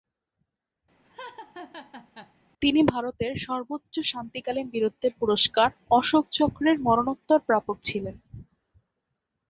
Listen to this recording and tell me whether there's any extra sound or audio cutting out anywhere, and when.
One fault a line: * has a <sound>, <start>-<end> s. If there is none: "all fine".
* has a laugh, 1.0-2.3 s